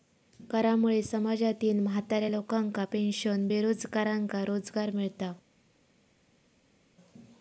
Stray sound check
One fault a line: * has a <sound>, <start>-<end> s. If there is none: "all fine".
all fine